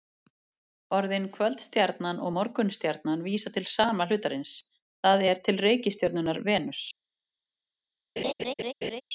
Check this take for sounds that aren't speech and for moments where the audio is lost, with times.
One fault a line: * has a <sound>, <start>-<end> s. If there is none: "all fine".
* has a laugh, 8.2-9.0 s